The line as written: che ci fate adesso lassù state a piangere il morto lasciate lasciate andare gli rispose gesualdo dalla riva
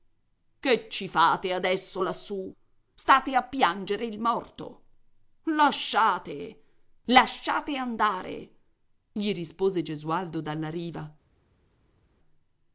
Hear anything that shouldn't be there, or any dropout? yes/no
no